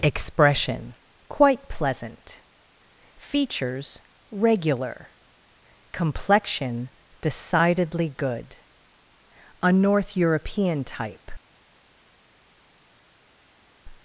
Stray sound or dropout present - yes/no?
no